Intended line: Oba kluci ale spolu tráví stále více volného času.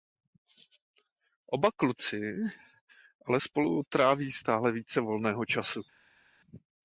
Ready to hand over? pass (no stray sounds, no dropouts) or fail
pass